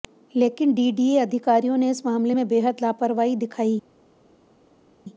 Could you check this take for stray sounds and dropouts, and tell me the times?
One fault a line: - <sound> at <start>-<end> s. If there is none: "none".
none